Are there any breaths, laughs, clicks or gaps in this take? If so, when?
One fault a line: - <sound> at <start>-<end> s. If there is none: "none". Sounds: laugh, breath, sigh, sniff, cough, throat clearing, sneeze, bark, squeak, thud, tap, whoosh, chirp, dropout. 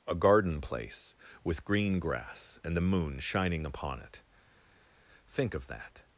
none